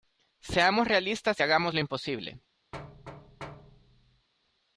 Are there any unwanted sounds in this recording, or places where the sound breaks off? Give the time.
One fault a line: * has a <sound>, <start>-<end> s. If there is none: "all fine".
* has a thud, 2.7-4.3 s